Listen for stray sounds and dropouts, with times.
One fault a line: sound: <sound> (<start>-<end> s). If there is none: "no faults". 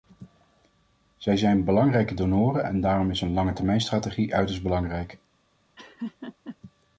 sound: laugh (5.8-6.6 s)